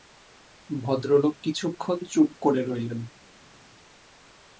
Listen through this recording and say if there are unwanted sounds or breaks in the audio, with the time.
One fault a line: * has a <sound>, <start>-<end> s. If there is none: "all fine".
all fine